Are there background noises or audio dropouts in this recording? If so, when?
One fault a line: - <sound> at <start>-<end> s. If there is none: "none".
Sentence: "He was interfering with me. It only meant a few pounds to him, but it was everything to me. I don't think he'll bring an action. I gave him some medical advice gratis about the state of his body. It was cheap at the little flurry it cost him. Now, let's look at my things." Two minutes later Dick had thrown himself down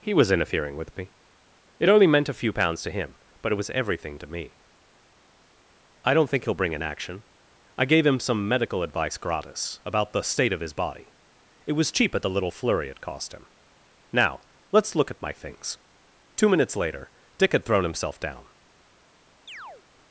- chirp at 19.5-19.8 s